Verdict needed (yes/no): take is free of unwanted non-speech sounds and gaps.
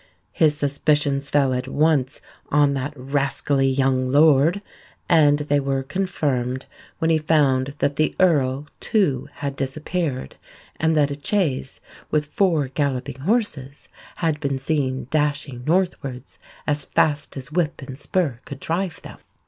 yes